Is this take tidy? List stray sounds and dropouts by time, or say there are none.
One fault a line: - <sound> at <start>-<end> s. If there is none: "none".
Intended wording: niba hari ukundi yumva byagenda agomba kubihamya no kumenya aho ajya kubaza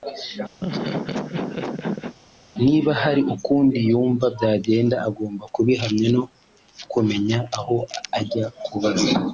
- laugh at 0.6-2.2 s